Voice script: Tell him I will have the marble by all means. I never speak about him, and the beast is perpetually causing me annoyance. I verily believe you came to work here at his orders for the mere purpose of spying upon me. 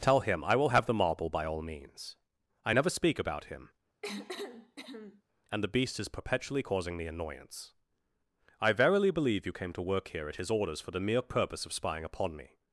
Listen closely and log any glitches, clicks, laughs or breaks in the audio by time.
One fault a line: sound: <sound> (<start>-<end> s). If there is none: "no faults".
sound: cough (4.0-5.2 s)